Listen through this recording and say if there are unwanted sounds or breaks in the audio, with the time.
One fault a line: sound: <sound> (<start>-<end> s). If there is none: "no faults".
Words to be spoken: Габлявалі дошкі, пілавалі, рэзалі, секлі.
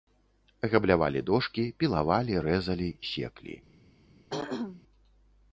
sound: throat clearing (4.3-4.8 s)